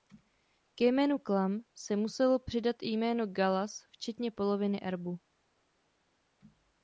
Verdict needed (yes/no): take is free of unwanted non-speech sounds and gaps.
yes